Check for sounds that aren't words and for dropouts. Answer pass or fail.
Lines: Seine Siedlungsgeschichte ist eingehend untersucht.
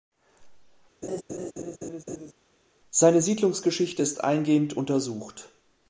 fail